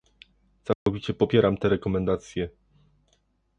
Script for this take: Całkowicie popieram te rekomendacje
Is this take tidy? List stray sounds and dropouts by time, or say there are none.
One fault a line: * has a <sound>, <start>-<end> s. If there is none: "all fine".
* has a dropout, 0.7-0.9 s